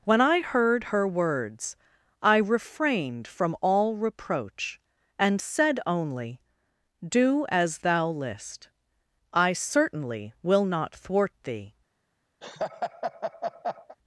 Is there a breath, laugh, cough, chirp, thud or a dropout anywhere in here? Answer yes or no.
yes